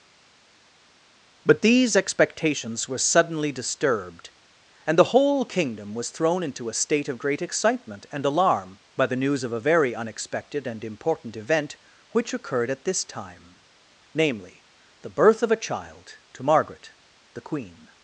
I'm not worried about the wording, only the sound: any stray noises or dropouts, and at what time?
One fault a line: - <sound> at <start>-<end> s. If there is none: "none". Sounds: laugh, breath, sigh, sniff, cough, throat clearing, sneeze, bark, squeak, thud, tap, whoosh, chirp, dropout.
none